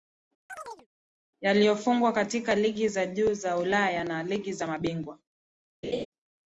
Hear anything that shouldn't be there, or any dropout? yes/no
yes